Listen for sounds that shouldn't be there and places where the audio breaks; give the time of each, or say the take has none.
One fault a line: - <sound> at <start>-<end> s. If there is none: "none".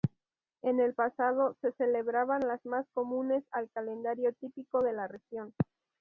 none